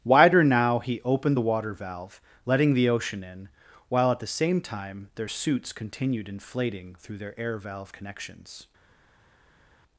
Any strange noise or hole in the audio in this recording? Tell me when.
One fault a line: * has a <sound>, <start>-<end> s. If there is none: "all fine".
all fine